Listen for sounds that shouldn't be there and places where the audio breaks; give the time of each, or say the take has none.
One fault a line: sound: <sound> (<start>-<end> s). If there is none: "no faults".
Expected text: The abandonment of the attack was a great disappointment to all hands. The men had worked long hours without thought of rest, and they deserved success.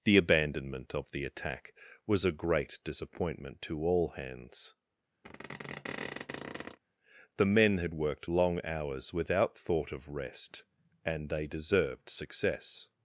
sound: squeak (5.2-6.8 s)